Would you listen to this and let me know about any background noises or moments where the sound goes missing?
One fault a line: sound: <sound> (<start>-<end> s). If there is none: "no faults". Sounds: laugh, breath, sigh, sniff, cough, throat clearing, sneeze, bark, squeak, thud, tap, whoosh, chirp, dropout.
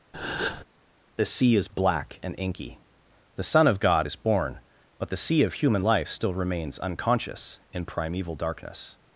sound: breath (0.1-0.6 s)